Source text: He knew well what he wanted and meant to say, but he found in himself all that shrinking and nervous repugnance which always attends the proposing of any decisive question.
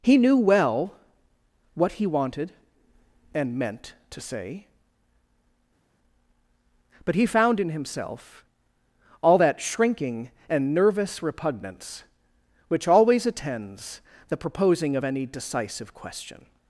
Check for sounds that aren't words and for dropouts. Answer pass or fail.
pass